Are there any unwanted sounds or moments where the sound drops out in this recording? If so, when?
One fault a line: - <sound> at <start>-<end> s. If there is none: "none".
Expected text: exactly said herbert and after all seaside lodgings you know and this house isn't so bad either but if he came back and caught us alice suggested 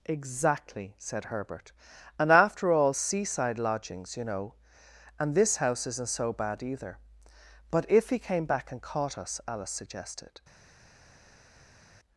none